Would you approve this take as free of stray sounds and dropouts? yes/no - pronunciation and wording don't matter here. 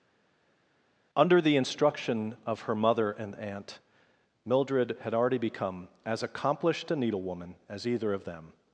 yes